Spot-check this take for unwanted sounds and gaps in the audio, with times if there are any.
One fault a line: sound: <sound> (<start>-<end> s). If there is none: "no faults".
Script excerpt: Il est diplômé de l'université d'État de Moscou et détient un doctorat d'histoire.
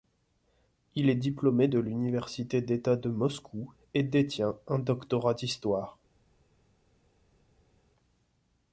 no faults